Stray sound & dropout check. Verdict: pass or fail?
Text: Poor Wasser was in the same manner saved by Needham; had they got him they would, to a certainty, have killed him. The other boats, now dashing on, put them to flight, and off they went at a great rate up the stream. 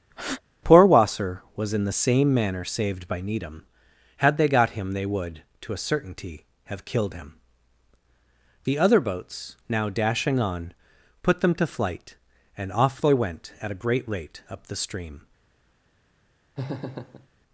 fail